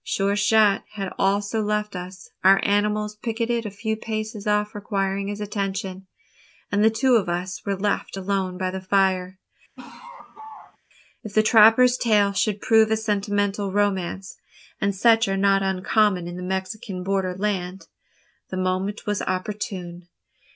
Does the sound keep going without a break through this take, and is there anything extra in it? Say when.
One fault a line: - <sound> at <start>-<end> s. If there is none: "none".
- laugh at 9.8-10.8 s